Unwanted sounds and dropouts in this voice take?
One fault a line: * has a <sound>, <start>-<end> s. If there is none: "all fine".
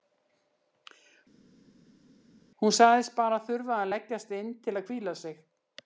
all fine